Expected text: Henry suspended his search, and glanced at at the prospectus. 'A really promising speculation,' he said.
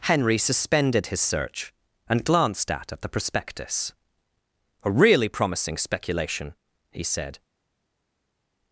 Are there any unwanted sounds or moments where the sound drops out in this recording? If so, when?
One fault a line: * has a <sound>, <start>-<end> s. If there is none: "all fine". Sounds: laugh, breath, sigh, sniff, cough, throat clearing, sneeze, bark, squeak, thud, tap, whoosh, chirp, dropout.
all fine